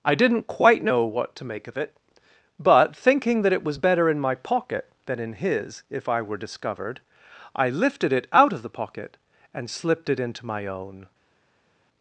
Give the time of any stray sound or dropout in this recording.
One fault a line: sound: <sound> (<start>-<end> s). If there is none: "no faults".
no faults